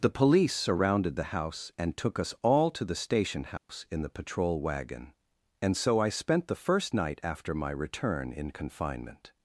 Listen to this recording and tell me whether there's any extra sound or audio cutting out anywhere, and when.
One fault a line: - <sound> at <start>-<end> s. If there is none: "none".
- dropout at 3.6-3.7 s